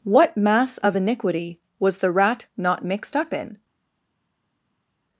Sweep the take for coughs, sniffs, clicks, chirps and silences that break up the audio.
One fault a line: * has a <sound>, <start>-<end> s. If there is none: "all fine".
all fine